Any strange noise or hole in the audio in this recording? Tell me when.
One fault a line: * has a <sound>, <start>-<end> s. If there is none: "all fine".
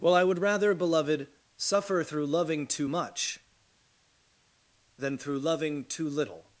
all fine